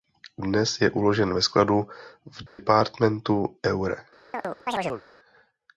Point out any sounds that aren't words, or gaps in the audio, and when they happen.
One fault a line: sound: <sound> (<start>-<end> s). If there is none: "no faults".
sound: dropout (2.5-2.6 s)
sound: chirp (4.3-5.0 s)